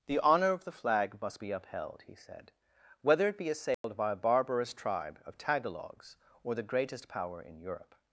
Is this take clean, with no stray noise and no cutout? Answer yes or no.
no